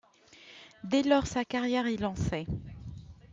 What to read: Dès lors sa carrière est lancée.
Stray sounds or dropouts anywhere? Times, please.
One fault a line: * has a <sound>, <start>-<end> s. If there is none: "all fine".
all fine